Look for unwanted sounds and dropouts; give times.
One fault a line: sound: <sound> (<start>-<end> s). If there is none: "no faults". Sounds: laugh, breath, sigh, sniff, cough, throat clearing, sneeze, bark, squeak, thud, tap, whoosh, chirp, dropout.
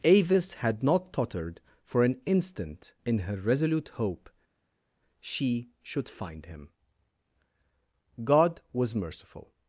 no faults